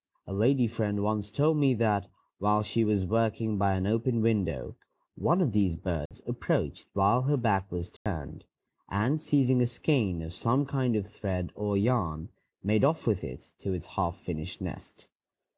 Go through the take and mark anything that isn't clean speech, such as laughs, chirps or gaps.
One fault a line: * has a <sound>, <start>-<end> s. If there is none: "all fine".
* has a dropout, 6.1-6.1 s
* has a dropout, 8.0-8.1 s